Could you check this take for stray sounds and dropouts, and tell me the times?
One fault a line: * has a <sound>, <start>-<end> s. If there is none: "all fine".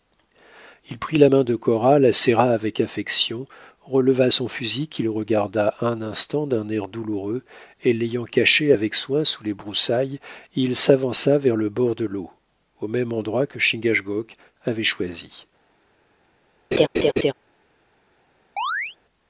* has a laugh, 16.7-17.3 s
* has a chirp, 18.6-19.0 s